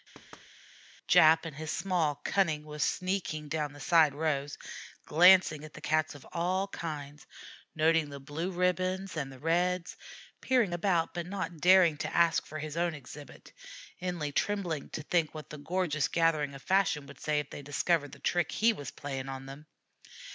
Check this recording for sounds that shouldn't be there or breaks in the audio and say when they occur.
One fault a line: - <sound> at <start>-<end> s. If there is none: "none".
- thud at 0.1-0.5 s